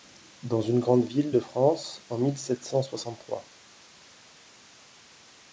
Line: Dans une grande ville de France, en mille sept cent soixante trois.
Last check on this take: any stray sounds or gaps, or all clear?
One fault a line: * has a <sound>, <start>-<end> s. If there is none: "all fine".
all fine